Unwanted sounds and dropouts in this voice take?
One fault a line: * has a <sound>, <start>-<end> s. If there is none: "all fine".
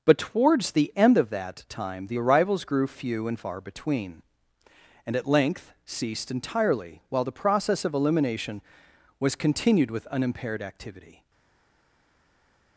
all fine